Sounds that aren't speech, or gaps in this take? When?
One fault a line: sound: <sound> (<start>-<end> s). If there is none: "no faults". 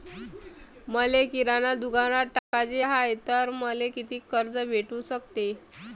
sound: dropout (2.4-2.5 s)